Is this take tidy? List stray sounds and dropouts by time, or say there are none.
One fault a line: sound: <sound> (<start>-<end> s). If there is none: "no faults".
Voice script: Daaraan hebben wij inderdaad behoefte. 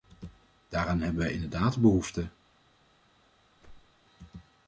sound: whoosh (3.6-4.0 s)